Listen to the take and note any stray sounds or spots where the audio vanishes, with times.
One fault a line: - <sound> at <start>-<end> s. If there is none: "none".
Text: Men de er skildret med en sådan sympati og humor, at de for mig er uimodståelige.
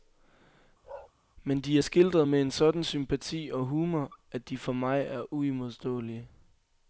- bark at 0.8-1.1 s